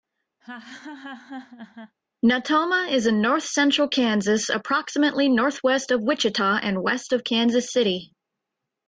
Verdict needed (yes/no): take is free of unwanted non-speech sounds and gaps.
no